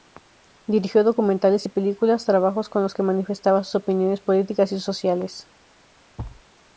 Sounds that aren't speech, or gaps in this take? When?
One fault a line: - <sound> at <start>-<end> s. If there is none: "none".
- thud at 6.2-6.4 s